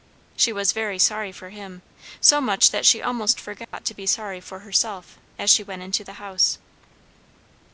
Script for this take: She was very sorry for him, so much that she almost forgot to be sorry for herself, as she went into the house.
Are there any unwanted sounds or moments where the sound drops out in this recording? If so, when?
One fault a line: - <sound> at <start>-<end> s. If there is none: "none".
- dropout at 3.6-3.7 s